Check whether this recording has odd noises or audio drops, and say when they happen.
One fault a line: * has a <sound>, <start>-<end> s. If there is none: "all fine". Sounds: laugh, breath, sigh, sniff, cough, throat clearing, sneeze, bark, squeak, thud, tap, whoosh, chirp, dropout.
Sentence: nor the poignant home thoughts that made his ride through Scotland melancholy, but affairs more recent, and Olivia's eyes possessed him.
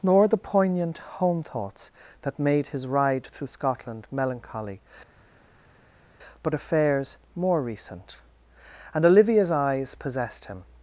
all fine